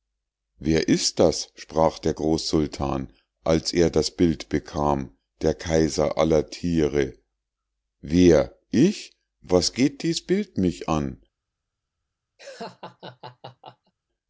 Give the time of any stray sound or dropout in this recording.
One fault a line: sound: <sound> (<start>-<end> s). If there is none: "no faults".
sound: laugh (12.4-13.9 s)